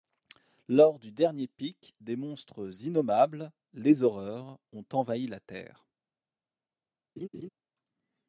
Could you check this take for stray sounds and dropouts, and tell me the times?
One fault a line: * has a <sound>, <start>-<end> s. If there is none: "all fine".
* has a laugh, 7.2-7.5 s